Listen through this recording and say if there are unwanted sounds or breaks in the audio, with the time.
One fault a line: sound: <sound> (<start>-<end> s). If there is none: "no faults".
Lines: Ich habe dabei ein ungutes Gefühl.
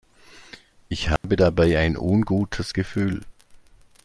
sound: dropout (1.2-1.2 s)